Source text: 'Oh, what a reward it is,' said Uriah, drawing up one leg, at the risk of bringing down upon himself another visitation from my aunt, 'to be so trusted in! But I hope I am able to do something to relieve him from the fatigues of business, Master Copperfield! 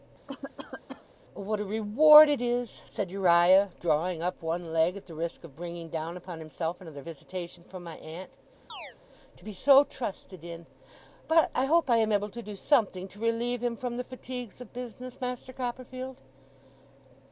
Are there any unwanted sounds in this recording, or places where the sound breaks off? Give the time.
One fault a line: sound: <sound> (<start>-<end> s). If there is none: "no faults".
sound: cough (0.3-1.1 s)
sound: chirp (8.7-9.0 s)